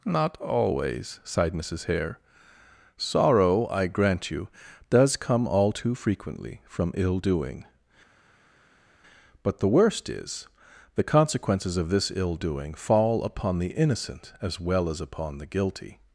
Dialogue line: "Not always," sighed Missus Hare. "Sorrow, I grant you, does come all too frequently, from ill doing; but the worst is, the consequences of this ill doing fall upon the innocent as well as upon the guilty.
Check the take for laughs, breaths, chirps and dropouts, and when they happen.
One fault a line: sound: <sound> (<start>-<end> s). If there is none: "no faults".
no faults